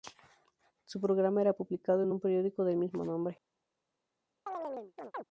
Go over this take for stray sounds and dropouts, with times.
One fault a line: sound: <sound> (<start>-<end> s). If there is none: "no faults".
sound: chirp (4.5-5.2 s)